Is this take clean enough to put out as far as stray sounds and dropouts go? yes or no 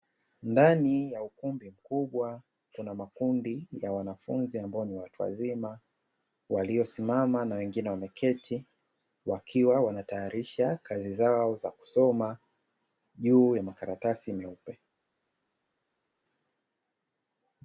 yes